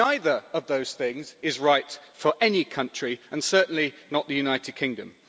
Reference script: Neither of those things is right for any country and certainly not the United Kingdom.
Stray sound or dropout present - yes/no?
no